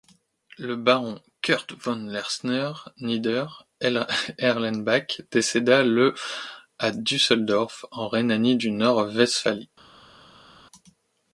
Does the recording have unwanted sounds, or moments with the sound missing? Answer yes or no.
no